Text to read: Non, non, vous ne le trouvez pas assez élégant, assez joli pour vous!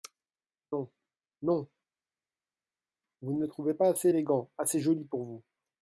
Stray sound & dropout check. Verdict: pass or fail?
pass